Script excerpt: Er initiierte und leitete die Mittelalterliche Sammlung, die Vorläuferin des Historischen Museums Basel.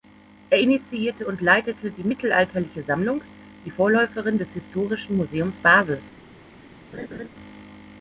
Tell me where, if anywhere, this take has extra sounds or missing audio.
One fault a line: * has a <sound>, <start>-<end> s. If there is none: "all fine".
* has a laugh, 6.9-7.3 s